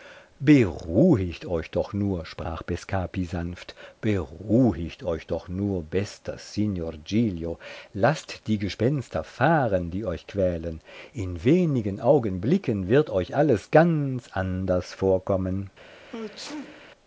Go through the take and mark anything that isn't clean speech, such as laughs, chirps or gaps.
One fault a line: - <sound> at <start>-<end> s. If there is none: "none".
- sneeze at 16.1-16.9 s